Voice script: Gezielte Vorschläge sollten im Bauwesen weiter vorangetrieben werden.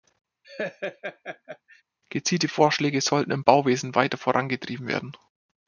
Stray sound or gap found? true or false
true